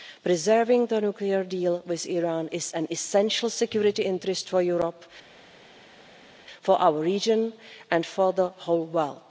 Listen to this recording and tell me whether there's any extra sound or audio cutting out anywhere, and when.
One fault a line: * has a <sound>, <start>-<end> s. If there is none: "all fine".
all fine